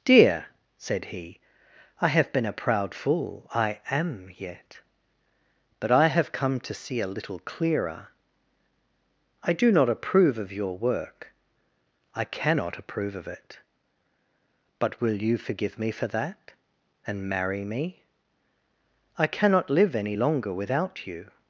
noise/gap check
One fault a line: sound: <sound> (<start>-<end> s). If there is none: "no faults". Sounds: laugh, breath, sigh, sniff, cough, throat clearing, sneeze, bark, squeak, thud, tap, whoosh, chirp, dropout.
no faults